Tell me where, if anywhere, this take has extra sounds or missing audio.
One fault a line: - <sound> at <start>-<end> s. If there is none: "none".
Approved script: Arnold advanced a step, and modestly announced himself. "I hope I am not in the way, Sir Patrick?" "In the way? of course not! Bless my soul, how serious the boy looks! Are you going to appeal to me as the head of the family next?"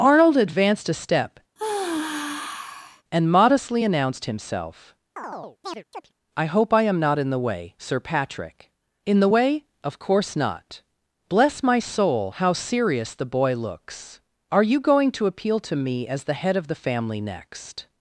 - sigh at 1.6-3.0 s
- chirp at 5.2-6.1 s